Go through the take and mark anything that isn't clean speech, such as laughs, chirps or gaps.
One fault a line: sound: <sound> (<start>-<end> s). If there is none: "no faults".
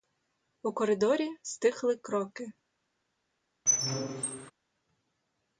sound: squeak (3.7-4.5 s)